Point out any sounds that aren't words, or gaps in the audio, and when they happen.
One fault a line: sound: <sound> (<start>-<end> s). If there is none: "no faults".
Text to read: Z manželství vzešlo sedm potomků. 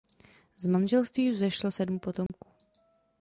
sound: dropout (2.3-2.3 s)